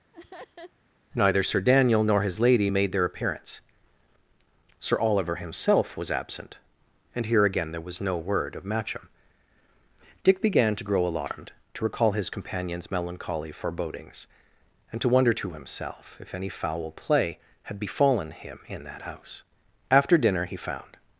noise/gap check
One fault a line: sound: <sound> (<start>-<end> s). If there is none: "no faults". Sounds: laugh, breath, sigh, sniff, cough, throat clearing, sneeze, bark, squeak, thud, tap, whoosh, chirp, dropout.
sound: laugh (0.1-0.7 s)